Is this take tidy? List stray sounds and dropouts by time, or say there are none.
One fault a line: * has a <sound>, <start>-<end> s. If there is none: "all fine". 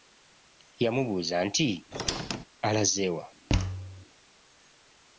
* has a squeak, 1.9-2.4 s
* has a thud, 3.5-4.1 s